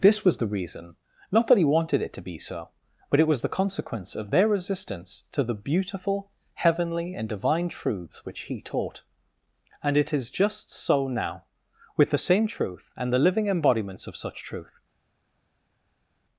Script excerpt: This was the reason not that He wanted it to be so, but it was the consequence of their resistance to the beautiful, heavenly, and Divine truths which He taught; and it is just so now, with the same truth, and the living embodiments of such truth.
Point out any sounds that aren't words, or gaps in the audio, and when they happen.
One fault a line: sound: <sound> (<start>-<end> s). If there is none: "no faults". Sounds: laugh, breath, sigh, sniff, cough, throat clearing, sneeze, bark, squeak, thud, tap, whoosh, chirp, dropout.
no faults